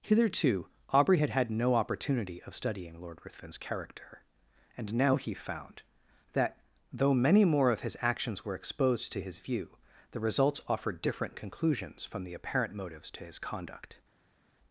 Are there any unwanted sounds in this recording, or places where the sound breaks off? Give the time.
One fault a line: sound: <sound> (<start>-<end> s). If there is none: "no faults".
no faults